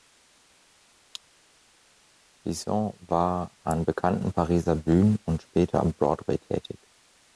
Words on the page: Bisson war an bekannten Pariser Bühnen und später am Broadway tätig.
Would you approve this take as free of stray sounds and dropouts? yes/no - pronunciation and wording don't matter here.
yes